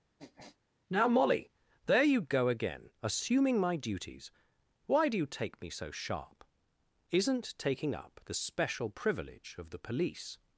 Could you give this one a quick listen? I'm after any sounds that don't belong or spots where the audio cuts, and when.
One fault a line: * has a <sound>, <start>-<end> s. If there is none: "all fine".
* has a sniff, 0.2-0.6 s